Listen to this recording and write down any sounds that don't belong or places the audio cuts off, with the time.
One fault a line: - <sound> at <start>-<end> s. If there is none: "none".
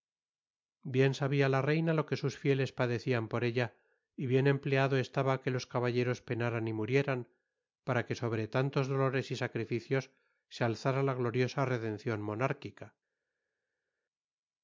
none